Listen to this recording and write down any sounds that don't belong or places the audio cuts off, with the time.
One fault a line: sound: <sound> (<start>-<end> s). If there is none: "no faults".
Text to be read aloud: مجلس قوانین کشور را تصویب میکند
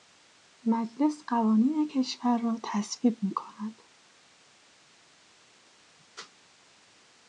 no faults